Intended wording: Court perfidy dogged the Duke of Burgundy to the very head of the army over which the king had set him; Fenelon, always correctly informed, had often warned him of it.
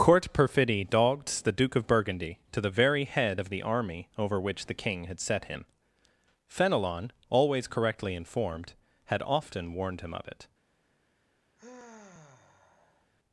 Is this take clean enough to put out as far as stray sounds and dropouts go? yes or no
no